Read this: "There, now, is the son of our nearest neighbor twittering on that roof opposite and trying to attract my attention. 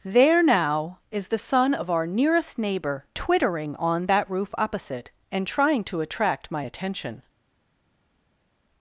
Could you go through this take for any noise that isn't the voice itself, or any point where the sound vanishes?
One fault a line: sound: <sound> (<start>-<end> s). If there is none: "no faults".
no faults